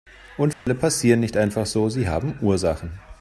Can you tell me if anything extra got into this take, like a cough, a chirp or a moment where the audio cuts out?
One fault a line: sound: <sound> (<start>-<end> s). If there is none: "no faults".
sound: dropout (0.5-0.7 s)